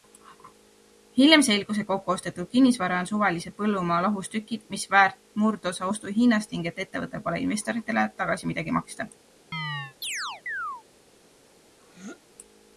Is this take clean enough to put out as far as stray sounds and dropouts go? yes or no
no